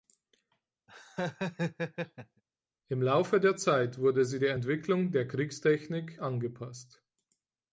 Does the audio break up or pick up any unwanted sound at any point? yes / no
yes